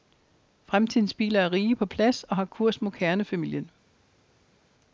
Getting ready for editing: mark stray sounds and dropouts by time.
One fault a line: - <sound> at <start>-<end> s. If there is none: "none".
none